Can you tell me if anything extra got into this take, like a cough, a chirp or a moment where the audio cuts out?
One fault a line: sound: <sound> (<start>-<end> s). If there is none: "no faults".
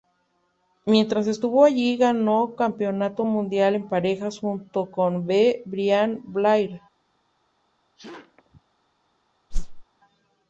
sound: sneeze (8.0-8.6 s)
sound: whoosh (9.5-9.8 s)